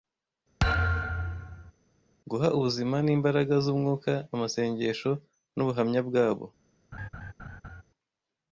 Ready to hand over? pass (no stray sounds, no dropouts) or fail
fail